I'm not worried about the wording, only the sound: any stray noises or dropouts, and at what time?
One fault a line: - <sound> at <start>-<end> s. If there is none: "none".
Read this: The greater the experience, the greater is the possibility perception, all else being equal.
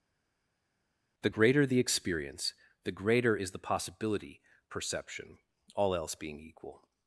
none